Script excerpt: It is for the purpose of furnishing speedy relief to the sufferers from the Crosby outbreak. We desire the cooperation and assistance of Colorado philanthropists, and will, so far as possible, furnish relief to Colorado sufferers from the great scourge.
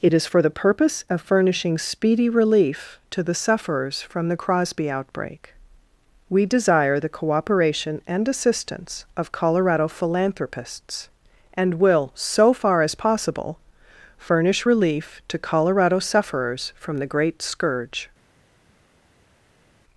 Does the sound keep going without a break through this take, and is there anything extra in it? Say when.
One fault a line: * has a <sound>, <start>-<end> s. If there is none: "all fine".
all fine